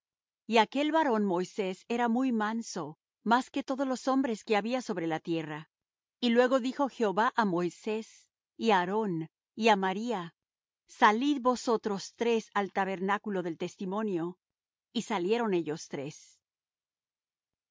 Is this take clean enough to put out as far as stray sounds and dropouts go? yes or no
yes